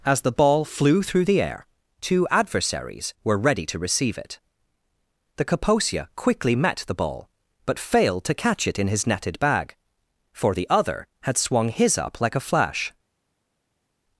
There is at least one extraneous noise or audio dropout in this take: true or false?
false